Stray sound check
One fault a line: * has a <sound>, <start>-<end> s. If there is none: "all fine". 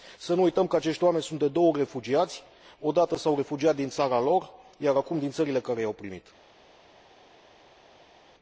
all fine